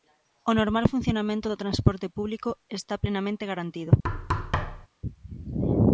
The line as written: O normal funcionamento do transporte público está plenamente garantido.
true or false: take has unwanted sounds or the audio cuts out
true